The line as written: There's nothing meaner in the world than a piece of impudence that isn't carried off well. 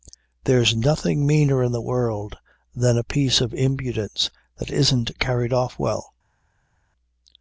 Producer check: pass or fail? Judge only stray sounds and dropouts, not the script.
pass